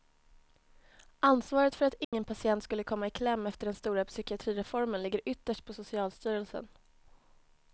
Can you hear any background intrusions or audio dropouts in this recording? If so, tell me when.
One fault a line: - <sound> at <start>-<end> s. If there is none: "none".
- dropout at 2.0-2.1 s